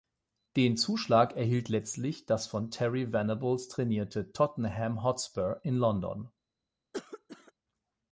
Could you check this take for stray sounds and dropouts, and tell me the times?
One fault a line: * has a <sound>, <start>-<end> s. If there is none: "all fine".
* has a cough, 6.9-7.5 s